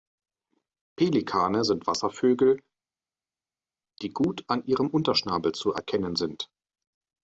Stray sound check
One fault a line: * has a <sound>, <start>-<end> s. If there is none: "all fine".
all fine